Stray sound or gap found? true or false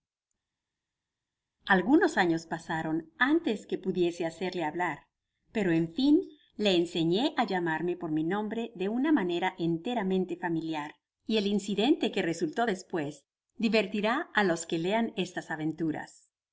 false